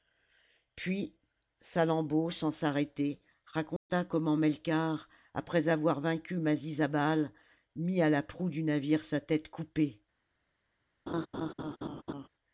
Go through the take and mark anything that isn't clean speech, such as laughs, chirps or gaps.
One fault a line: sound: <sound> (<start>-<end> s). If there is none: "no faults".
sound: dropout (3.8-3.9 s)
sound: laugh (11.1-12.3 s)